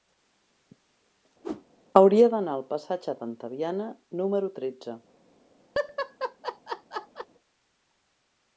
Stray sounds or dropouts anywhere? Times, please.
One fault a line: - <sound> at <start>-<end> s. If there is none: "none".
- whoosh at 1.4-1.7 s
- laugh at 5.7-7.3 s